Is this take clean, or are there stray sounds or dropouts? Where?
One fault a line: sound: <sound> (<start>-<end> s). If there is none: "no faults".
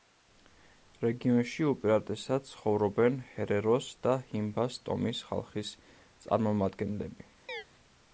sound: chirp (7.5-7.6 s)